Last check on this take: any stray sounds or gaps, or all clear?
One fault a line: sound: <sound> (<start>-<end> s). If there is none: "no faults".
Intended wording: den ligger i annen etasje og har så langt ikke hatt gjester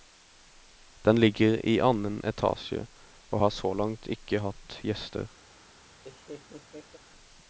sound: laugh (6.0-7.0 s)